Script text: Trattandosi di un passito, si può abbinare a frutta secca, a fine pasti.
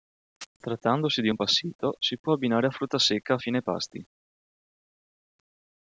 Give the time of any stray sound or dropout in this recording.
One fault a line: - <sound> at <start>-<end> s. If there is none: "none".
none